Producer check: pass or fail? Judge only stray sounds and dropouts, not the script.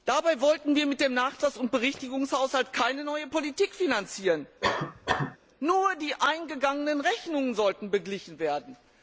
fail